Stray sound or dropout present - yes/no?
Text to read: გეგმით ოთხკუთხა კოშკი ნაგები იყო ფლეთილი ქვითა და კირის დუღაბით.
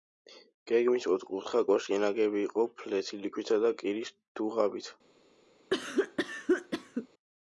yes